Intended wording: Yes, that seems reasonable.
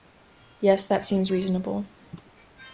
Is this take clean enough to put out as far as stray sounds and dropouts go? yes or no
yes